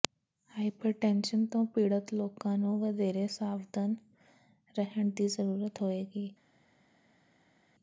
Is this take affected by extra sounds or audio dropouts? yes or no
no